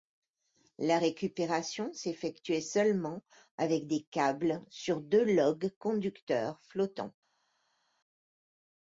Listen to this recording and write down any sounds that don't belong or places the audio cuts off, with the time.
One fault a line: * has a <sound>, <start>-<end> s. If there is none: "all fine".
all fine